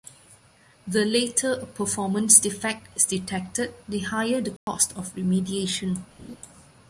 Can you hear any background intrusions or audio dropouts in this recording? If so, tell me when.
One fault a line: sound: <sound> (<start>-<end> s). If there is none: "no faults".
sound: dropout (4.6-4.7 s)
sound: laugh (6.2-6.4 s)